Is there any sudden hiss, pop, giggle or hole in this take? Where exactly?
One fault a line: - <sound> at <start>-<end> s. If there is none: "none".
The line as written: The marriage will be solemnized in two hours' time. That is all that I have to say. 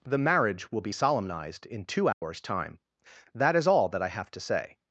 - dropout at 2.1-2.2 s